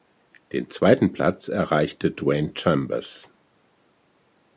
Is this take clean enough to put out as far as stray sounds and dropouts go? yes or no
yes